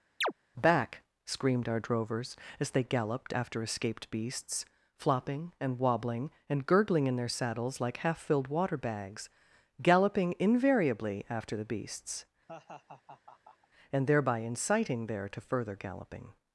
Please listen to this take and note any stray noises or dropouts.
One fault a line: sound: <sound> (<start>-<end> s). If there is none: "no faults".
sound: chirp (0.2-0.3 s)
sound: laugh (12.5-13.7 s)